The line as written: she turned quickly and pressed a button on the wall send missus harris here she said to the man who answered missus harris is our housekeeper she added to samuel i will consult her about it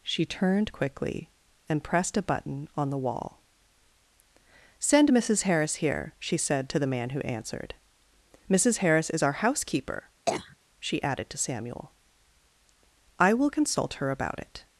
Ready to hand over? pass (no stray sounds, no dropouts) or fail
fail